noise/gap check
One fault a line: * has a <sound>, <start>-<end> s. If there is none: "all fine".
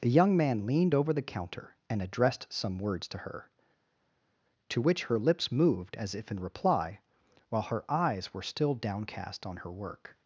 all fine